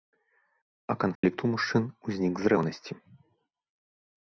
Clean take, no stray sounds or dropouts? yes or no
no